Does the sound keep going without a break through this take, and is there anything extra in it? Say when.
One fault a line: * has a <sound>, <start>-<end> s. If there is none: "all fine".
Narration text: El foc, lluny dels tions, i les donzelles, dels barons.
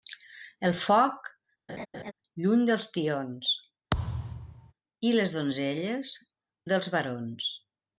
* has a laugh, 1.7-2.1 s
* has a thud, 3.9-4.7 s